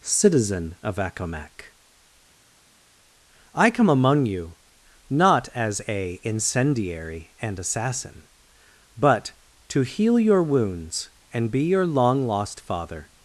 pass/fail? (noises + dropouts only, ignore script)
pass